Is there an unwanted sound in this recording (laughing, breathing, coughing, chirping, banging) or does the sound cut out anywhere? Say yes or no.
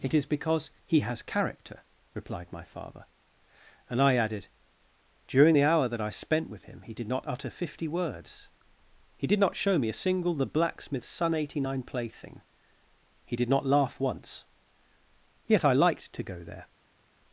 no